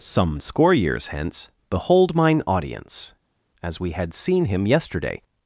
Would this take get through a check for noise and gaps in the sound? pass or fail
pass